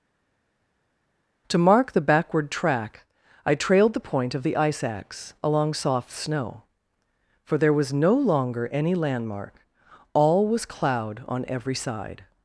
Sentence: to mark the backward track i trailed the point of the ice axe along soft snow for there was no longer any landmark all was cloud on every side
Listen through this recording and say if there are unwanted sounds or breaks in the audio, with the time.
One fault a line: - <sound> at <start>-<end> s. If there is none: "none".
none